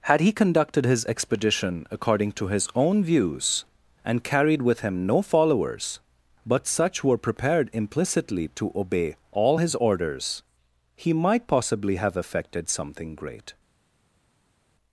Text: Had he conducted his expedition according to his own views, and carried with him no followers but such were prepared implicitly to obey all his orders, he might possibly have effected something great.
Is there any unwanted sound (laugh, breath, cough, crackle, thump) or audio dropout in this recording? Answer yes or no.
no